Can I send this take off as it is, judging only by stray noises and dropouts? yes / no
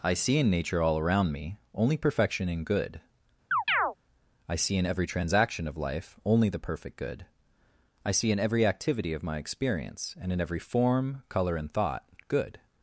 no